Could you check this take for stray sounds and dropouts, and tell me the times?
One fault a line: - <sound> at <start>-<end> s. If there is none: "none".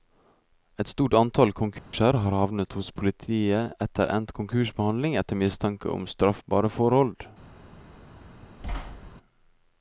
- dropout at 1.8-1.9 s
- thud at 8.6-9.1 s